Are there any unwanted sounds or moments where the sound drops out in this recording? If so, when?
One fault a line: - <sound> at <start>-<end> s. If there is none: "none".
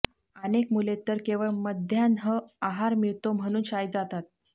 none